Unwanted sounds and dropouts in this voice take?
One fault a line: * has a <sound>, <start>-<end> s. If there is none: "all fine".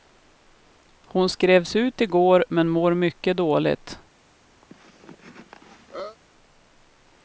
* has a cough, 4.6-6.2 s